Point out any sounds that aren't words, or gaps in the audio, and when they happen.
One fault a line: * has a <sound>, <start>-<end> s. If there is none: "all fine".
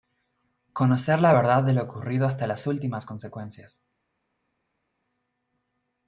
all fine